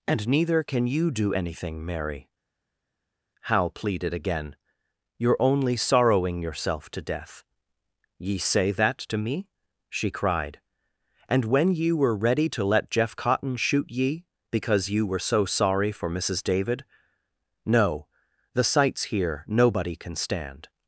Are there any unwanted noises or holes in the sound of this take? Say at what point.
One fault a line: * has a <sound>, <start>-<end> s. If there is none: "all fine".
all fine